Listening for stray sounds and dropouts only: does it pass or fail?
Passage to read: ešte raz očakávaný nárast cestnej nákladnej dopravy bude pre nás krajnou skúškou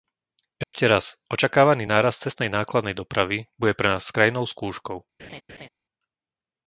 fail